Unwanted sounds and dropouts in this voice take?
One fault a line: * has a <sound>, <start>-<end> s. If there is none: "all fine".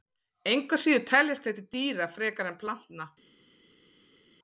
all fine